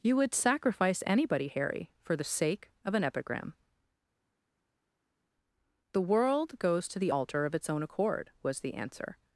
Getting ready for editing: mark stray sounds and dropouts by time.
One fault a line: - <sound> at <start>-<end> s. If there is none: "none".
none